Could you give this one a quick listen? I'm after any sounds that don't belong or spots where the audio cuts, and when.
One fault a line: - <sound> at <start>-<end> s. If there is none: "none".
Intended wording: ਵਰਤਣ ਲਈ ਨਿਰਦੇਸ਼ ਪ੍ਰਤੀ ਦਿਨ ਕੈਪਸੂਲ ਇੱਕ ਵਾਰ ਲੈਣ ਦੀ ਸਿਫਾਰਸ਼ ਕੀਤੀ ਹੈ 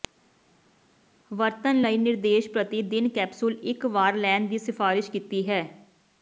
none